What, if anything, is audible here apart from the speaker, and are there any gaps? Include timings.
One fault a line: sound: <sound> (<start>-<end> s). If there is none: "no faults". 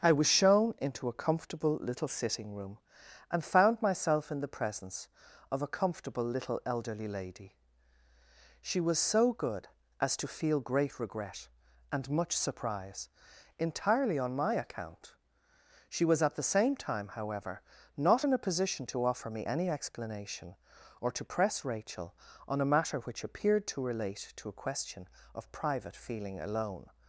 no faults